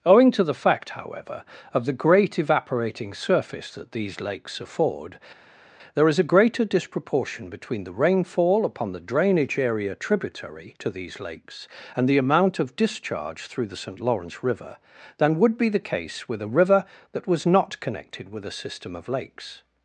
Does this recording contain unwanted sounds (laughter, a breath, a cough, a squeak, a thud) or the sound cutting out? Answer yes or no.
no